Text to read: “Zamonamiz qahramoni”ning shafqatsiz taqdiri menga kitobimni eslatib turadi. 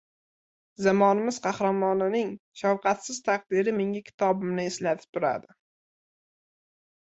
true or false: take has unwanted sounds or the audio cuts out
false